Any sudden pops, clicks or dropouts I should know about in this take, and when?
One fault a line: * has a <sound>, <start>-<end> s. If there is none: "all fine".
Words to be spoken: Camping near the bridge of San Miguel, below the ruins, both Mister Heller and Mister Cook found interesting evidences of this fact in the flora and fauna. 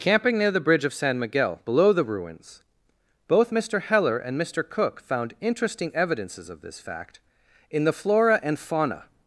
all fine